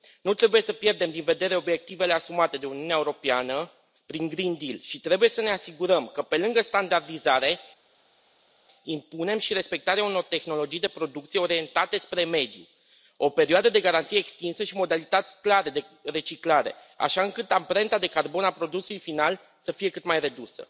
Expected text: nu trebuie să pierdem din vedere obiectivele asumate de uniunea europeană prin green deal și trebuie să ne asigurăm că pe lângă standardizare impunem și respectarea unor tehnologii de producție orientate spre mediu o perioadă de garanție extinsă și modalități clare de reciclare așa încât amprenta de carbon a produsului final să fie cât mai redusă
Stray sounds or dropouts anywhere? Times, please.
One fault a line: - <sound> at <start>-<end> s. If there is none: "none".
none